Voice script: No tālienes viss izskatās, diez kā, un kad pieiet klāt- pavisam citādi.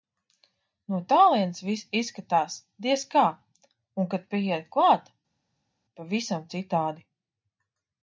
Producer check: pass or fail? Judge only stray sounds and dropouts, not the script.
pass